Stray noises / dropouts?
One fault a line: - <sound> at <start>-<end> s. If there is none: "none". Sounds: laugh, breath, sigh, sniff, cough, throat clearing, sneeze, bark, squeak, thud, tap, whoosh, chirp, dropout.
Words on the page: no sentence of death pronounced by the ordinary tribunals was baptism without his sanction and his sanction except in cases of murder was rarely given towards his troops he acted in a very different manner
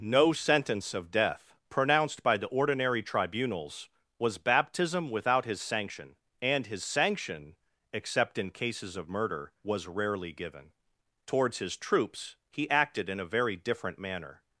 none